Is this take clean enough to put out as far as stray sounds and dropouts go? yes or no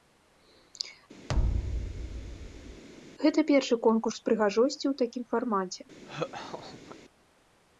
no